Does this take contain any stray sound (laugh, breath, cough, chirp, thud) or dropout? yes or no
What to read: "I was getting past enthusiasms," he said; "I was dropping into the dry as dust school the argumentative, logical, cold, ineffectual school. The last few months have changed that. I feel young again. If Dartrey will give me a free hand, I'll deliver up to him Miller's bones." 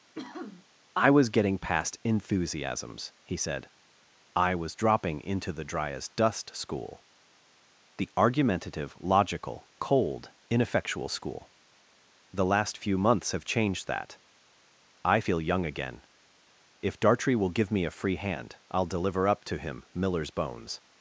yes